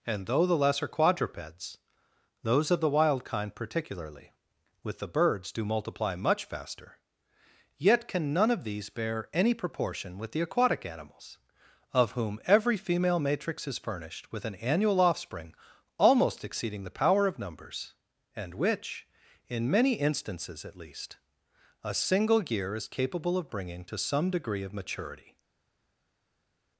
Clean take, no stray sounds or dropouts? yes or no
yes